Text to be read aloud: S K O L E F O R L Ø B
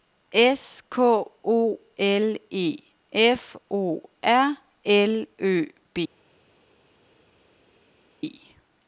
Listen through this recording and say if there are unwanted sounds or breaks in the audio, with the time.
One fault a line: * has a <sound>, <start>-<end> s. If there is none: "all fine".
all fine